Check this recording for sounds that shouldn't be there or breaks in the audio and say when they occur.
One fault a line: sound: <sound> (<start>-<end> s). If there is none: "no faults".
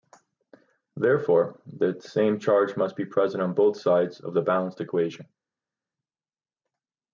no faults